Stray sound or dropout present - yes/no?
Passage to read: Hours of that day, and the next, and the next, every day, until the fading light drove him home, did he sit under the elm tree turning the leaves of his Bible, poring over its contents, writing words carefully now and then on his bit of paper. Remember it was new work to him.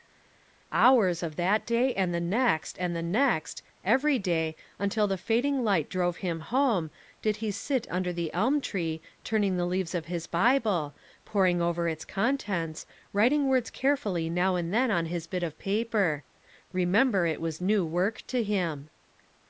no